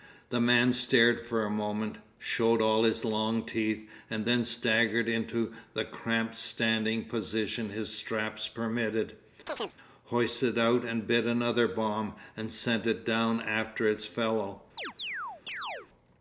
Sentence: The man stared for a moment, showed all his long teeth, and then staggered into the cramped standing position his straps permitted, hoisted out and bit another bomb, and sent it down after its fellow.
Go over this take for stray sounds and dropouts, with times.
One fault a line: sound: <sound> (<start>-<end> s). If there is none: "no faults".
sound: chirp (9.5-9.8 s)
sound: chirp (14.8-15.9 s)